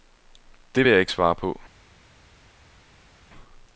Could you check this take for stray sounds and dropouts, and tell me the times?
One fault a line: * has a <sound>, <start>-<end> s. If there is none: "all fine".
all fine